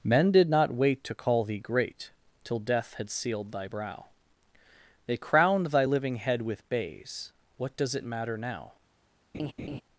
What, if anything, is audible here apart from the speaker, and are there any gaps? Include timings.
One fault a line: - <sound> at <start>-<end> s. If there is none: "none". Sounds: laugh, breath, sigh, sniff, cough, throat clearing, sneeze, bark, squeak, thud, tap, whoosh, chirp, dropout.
- laugh at 9.3-9.8 s